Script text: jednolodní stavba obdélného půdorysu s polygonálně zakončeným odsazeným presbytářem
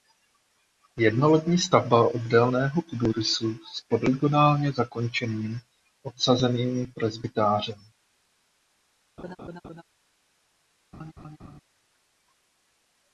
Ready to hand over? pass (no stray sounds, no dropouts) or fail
fail